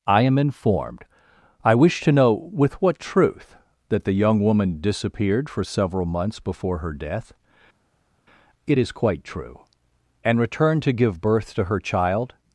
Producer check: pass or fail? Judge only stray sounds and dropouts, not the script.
pass